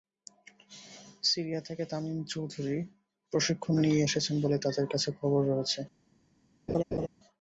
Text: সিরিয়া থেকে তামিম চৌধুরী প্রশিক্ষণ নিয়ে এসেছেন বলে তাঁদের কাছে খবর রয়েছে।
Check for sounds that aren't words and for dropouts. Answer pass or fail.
fail